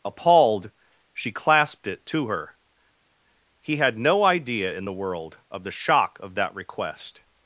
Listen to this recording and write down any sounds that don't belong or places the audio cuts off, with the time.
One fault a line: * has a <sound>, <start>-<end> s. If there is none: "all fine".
all fine